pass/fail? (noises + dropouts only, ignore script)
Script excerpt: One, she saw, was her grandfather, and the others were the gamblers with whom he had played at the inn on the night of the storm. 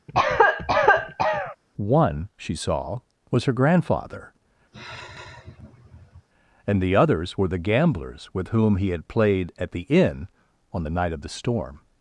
fail